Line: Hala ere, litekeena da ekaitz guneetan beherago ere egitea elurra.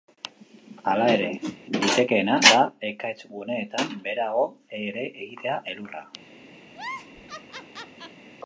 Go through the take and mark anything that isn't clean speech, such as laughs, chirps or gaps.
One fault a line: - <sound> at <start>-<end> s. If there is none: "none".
- whoosh at 1.4-1.6 s
- laugh at 6.7-8.2 s